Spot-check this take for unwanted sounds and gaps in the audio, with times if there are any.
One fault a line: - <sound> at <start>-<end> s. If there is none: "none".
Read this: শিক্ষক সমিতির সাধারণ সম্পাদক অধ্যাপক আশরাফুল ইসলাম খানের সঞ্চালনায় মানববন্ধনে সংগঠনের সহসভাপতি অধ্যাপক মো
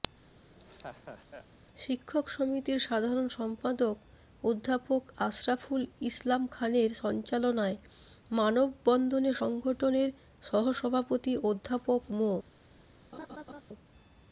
- laugh at 0.3-1.5 s
- laugh at 13.1-13.6 s